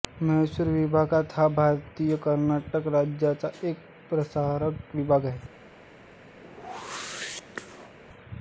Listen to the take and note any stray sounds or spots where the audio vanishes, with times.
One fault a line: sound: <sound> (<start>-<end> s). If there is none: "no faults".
sound: whoosh (6.4-8.0 s)